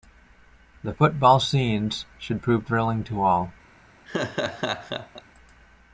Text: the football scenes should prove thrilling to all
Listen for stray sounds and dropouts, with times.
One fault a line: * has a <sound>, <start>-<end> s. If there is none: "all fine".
* has a laugh, 4.1-5.2 s